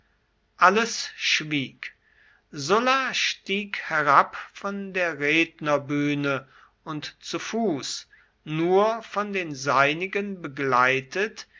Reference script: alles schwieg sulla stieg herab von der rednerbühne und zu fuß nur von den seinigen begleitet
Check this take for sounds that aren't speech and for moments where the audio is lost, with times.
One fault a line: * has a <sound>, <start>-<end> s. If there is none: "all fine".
all fine